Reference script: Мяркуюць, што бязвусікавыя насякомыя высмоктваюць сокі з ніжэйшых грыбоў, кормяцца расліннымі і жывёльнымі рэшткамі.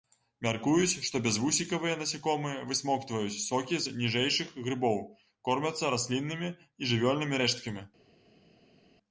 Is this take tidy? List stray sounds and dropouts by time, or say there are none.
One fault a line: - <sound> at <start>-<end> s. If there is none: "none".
none